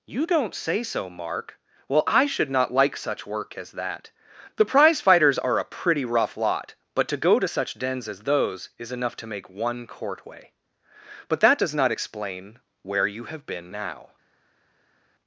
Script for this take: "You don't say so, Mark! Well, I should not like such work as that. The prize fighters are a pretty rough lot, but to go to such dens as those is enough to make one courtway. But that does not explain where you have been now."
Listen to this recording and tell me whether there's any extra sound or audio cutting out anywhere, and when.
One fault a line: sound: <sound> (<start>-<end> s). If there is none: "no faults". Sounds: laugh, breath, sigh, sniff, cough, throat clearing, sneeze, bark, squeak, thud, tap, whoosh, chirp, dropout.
no faults